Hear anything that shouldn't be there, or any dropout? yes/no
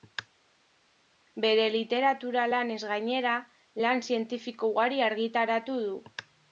no